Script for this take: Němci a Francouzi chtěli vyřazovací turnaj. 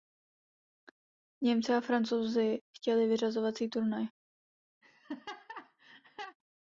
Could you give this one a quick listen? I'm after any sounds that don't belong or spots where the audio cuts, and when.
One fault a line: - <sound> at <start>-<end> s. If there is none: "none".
- laugh at 4.8-6.4 s